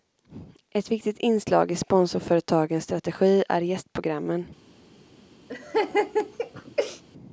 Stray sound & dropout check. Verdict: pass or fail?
fail